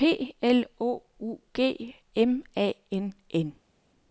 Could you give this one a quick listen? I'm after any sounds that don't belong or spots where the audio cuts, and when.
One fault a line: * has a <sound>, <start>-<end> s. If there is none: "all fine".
all fine